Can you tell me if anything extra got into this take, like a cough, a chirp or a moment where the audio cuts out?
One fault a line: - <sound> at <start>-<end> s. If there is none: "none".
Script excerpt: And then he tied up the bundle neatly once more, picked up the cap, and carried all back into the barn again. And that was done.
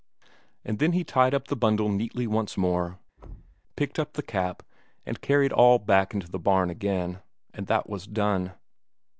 - thud at 3.2-3.6 s